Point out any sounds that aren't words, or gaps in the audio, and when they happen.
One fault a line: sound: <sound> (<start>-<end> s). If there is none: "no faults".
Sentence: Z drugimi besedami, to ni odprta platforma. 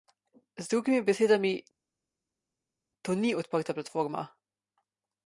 no faults